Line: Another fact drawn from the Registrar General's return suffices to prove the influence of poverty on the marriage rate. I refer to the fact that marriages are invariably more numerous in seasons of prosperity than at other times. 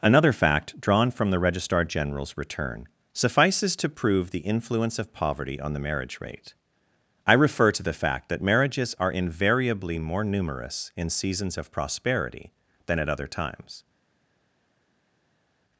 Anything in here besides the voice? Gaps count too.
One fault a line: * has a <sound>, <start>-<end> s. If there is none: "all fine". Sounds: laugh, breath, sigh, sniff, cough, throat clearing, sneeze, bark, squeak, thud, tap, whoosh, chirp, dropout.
all fine